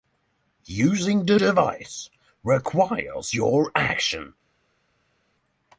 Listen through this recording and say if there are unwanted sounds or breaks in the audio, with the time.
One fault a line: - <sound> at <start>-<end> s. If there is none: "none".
none